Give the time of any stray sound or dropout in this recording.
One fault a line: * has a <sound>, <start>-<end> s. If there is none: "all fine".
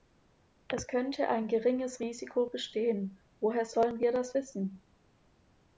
all fine